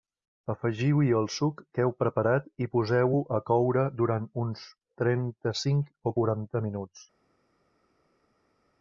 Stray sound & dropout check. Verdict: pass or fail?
pass